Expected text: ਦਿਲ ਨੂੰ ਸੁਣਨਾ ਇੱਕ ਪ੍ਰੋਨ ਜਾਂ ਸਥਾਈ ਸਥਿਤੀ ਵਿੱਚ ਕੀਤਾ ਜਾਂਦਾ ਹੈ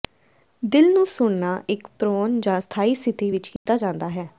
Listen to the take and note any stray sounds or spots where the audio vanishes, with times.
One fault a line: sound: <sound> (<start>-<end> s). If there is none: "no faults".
sound: dropout (3.6-3.7 s)